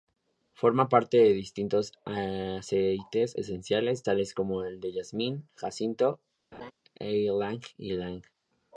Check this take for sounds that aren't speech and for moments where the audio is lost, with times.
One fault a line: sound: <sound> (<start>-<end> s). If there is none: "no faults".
sound: laugh (6.5-6.7 s)